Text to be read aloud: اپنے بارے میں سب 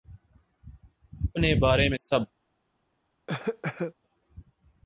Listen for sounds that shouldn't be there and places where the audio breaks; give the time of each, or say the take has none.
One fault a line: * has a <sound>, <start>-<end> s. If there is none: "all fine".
* has a cough, 3.3-3.9 s